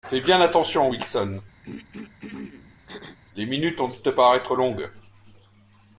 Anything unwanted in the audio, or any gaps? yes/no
yes